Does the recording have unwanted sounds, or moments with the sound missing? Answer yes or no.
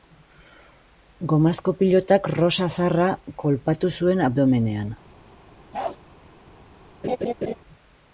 yes